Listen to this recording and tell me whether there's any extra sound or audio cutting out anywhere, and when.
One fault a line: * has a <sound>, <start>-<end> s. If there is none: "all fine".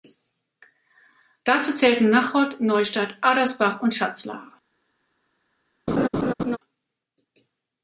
* has a laugh, 5.9-6.6 s